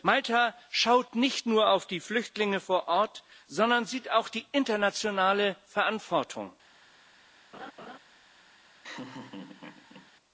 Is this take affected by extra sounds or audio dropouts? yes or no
yes